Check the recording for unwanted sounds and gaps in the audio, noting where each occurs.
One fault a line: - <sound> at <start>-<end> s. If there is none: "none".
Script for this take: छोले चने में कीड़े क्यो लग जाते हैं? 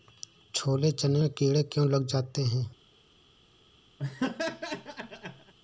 - laugh at 4.0-5.5 s